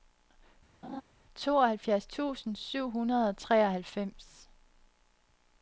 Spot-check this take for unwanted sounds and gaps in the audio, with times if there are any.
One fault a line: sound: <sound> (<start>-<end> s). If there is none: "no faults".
sound: laugh (0.8-1.0 s)